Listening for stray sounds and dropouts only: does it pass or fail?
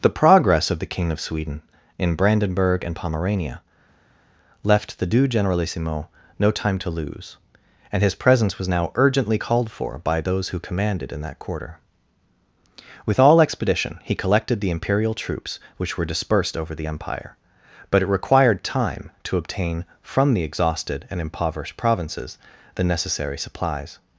pass